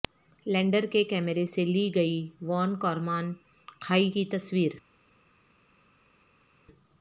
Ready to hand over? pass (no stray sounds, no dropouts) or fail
pass